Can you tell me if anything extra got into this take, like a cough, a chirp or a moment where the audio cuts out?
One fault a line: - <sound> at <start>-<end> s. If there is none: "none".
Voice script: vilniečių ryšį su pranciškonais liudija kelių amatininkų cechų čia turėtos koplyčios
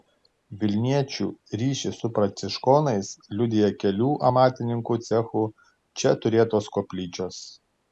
none